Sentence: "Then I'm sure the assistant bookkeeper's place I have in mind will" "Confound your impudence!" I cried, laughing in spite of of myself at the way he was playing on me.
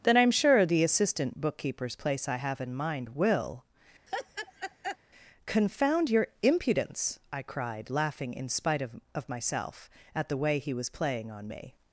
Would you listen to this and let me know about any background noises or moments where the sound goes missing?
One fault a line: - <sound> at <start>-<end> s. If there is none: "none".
- laugh at 4.1-5.0 s